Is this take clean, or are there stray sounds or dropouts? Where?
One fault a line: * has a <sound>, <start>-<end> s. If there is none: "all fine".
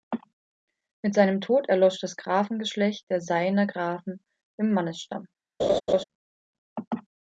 * has a laugh, 5.6-6.0 s